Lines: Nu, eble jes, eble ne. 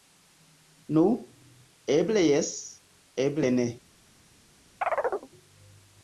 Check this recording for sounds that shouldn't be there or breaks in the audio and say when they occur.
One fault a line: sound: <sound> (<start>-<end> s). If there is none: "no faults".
sound: chirp (4.8-5.3 s)